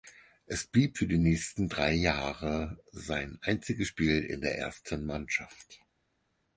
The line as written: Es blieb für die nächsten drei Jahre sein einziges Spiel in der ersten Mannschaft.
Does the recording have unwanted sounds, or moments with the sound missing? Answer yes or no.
no